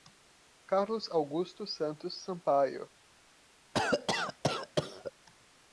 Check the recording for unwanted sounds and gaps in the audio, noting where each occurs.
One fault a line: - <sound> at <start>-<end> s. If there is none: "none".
- cough at 3.7-5.1 s